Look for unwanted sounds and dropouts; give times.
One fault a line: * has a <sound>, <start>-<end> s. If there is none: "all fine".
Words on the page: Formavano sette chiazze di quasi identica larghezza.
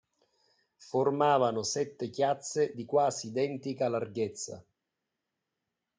all fine